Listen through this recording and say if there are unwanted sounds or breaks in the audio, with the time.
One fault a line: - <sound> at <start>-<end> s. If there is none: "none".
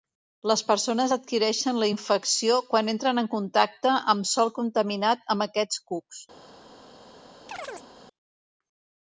- chirp at 7.5-7.9 s